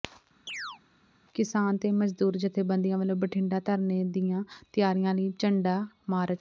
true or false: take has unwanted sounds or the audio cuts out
true